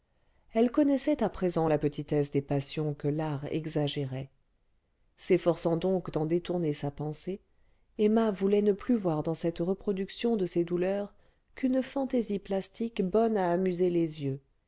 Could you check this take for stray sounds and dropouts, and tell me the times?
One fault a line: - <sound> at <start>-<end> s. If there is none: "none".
none